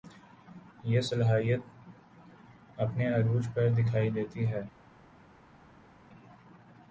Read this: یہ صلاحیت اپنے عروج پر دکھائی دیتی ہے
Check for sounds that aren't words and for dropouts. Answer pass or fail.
pass